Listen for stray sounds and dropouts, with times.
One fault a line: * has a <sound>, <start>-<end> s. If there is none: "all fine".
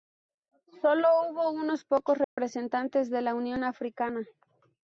* has a dropout, 2.2-2.4 s